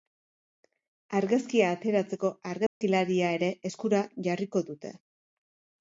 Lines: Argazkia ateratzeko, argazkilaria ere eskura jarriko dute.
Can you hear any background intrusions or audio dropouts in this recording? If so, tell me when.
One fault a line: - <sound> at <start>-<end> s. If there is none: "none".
- dropout at 2.7-2.8 s